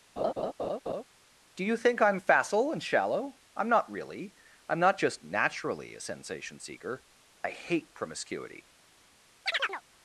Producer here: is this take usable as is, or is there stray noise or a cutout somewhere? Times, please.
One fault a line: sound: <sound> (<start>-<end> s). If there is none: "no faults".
sound: laugh (0.2-1.0 s)
sound: chirp (9.5-9.8 s)